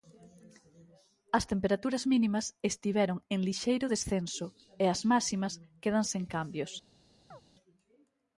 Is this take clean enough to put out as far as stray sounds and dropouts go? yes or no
no